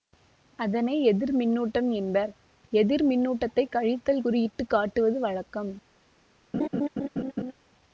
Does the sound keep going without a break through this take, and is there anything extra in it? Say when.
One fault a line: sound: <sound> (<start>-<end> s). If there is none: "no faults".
sound: laugh (6.5-7.5 s)